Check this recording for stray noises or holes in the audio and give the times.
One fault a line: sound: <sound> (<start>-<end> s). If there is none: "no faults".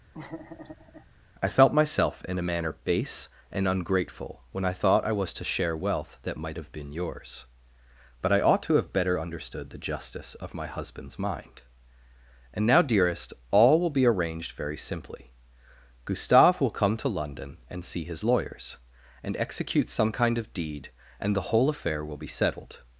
sound: laugh (0.1-1.1 s)